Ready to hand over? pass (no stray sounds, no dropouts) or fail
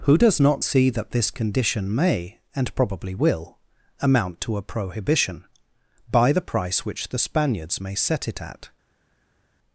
pass